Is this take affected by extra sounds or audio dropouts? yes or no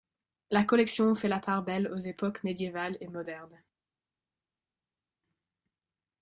no